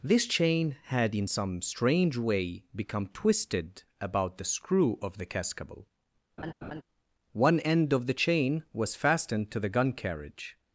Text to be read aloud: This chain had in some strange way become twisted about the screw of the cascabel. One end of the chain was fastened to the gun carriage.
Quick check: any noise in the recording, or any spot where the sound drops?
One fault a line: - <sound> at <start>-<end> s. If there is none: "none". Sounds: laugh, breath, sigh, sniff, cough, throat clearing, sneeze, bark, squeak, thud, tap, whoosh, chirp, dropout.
- laugh at 6.4-6.8 s